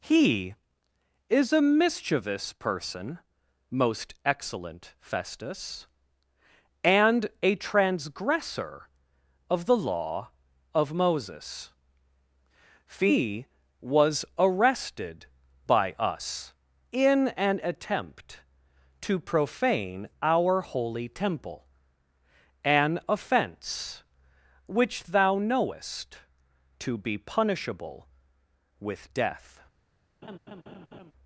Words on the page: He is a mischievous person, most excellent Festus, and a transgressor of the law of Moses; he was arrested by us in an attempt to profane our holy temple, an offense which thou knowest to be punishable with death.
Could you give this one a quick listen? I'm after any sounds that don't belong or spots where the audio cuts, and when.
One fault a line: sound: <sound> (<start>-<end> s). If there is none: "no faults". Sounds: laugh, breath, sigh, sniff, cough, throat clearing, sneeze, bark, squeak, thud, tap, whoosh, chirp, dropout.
sound: laugh (30.2-31.1 s)